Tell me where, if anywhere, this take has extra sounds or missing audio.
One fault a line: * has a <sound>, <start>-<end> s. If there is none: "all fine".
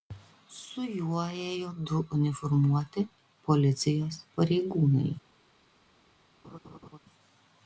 * has a laugh, 6.4-7.0 s